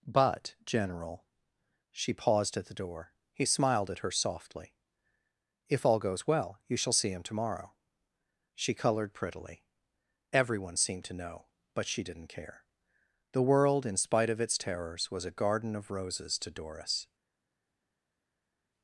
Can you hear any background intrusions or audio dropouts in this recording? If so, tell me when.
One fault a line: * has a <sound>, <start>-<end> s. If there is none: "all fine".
all fine